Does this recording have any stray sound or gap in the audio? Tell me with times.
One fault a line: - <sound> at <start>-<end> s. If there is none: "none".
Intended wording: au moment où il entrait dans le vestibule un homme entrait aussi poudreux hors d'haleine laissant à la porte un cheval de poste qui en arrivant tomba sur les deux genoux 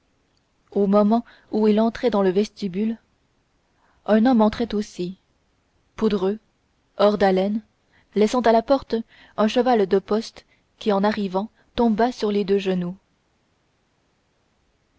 none